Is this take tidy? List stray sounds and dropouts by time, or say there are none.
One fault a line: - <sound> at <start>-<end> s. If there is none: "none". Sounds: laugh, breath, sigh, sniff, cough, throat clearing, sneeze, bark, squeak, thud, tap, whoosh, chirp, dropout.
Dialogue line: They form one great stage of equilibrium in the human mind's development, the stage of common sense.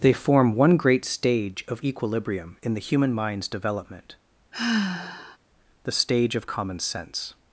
- sigh at 4.5-5.4 s